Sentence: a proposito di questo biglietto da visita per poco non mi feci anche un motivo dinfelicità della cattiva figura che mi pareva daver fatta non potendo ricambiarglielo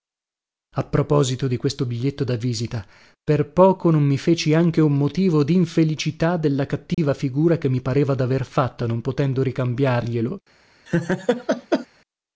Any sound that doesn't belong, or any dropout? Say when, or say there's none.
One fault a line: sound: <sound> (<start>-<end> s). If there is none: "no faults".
sound: dropout (6.9-7.0 s)
sound: laugh (10.9-11.9 s)